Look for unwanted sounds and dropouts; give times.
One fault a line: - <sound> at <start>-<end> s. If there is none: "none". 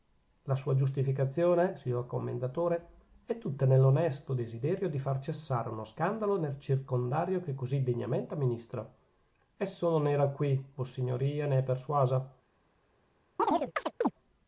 - chirp at 13.4-14.1 s